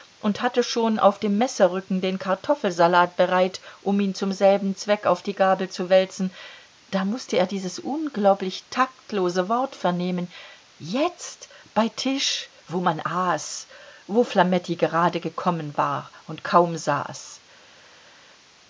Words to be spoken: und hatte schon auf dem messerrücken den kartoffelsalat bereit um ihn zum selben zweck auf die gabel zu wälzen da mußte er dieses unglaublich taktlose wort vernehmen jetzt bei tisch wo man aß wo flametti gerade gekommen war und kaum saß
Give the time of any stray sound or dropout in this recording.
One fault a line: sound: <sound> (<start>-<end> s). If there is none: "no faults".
no faults